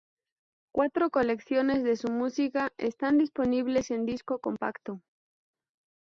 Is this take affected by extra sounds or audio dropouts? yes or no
no